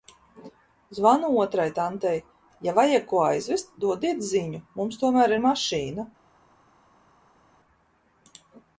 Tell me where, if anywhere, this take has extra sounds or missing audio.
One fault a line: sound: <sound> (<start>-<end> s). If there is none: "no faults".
no faults